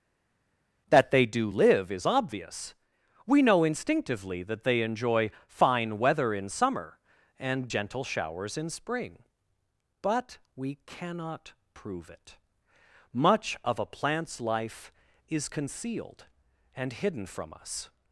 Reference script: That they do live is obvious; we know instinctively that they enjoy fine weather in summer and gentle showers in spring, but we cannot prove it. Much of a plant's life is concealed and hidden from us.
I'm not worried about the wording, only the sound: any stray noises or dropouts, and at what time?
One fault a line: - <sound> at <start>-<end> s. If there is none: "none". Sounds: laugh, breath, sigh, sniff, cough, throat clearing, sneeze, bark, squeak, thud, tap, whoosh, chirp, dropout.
none